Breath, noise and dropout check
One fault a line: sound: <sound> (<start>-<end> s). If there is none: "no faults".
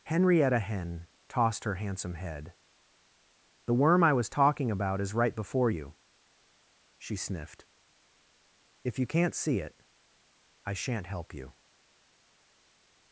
no faults